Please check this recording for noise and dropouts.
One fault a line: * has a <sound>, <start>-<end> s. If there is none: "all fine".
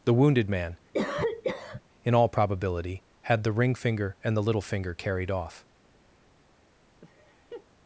* has a cough, 0.9-1.8 s
* has a laugh, 7.0-7.7 s